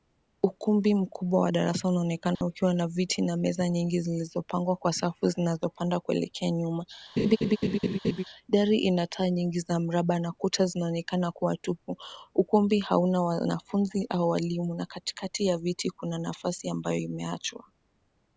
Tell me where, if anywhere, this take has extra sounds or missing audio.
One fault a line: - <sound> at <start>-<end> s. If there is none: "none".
- dropout at 2.4-2.4 s
- laugh at 7.2-8.2 s